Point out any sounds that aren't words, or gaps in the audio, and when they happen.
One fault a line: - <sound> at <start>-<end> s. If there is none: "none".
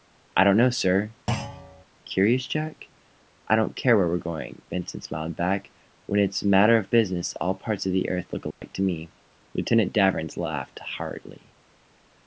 - thud at 1.3-1.8 s
- dropout at 8.5-8.6 s